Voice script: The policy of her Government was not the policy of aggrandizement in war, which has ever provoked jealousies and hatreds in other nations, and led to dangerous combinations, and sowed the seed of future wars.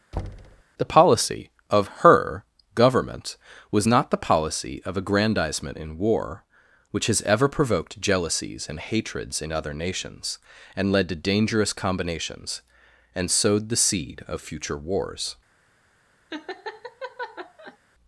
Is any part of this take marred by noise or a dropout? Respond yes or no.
yes